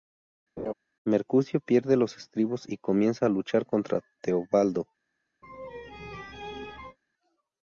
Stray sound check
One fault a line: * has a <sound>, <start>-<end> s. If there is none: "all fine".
* has a laugh, 0.6-0.7 s
* has a laugh, 5.4-7.0 s